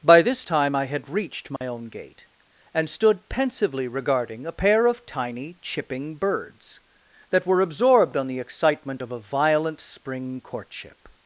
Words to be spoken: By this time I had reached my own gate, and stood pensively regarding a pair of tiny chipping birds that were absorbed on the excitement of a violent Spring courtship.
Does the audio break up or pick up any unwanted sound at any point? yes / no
yes